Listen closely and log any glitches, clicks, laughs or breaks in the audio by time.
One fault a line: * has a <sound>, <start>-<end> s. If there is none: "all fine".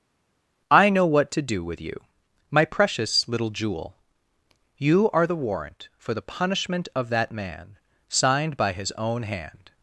all fine